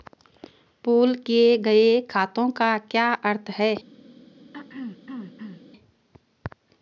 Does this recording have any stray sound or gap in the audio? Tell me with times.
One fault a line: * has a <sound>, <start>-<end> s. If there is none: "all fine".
* has a throat clearing, 4.5-5.6 s